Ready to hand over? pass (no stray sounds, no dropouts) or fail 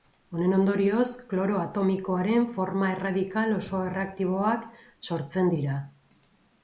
pass